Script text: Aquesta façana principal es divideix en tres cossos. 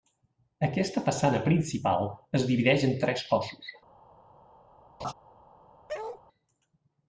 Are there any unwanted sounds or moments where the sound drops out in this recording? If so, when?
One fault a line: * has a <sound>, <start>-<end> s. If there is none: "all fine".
* has a laugh, 5.0-5.1 s
* has a bark, 5.9-6.2 s